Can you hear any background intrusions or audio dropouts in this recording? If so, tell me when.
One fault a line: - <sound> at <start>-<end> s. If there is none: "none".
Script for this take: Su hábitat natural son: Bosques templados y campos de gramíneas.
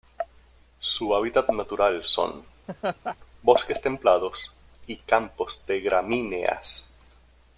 - laugh at 2.7-3.2 s